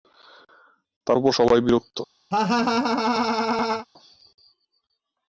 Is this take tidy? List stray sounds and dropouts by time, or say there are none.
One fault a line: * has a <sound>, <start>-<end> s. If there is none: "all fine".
* has a laugh, 2.3-3.9 s